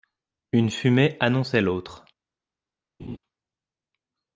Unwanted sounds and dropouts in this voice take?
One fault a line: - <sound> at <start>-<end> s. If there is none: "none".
- laugh at 3.0-3.2 s